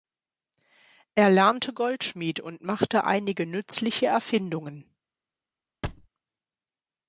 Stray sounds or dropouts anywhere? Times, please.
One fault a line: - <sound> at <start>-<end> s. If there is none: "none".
- thud at 5.8-6.1 s